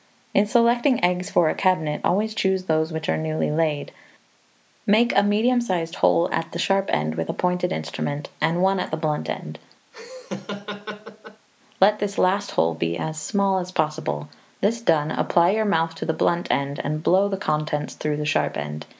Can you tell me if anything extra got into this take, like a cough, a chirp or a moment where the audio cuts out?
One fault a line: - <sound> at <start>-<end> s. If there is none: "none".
- laugh at 9.9-11.5 s